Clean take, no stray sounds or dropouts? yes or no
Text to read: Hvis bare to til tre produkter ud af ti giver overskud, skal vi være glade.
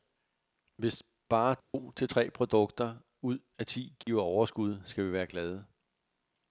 no